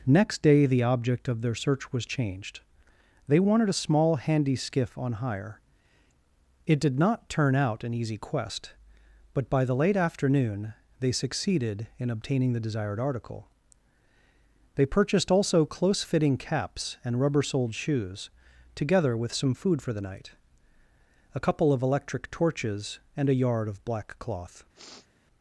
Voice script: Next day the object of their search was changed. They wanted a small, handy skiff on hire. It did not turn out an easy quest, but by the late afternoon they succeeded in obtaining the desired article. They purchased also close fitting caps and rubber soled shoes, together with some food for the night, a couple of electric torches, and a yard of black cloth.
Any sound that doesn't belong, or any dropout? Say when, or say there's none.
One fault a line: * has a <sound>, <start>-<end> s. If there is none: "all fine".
* has a sniff, 24.7-25.1 s